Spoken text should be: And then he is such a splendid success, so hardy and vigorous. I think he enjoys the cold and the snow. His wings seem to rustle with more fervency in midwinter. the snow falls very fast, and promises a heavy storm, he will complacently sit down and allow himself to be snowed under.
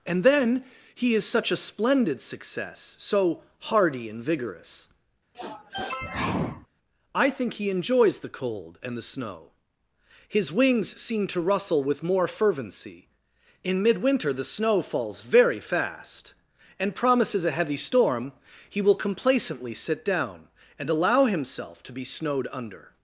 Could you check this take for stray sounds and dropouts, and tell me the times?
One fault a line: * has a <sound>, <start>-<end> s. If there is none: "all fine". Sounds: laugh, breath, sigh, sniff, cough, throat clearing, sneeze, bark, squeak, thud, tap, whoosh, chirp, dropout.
* has a sniff, 5.3-6.7 s